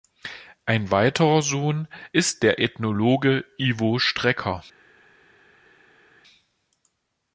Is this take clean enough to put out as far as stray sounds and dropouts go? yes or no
yes